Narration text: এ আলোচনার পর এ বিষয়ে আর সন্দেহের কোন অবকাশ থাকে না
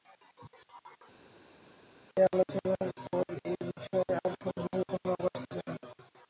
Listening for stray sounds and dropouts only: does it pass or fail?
pass